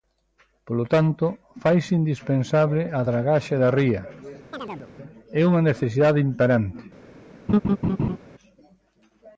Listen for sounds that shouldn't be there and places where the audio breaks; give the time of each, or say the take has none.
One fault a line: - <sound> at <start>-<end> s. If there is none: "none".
- chirp at 4.5-4.9 s
- laugh at 7.5-8.2 s